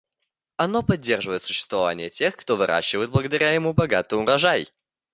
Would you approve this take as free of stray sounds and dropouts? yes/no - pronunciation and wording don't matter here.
yes